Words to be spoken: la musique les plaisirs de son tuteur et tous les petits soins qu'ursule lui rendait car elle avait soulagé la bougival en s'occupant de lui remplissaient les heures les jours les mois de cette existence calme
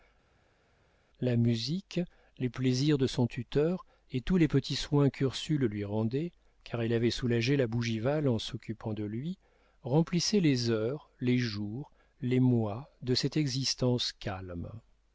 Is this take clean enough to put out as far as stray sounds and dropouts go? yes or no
yes